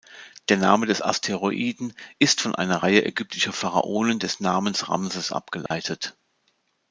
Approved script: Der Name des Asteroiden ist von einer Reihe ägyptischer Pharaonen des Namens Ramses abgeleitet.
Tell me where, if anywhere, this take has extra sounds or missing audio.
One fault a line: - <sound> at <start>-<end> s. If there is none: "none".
- dropout at 5.7-5.7 s